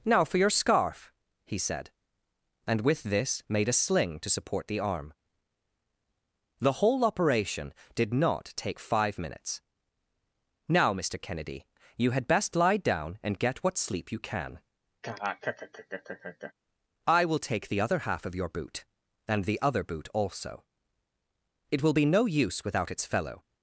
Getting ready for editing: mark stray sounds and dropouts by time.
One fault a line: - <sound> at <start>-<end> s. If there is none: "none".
- laugh at 15.0-16.5 s